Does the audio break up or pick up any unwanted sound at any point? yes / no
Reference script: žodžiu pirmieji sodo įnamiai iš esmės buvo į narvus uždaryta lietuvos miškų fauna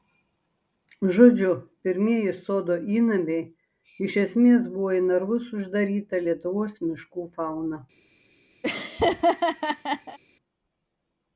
yes